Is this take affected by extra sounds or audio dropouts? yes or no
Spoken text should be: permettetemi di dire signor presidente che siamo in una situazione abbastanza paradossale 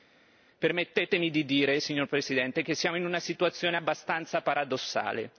no